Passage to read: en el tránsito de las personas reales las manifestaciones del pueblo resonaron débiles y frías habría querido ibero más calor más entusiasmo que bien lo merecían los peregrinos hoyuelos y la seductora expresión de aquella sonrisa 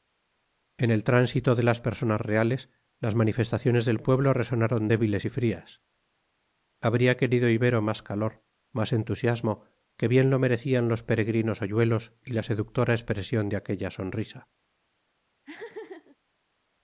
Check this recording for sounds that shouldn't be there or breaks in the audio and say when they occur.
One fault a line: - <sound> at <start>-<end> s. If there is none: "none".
- laugh at 15.4-16.2 s